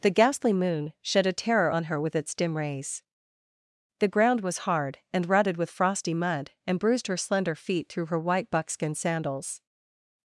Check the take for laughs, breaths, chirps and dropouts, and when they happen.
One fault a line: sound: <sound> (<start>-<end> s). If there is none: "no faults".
no faults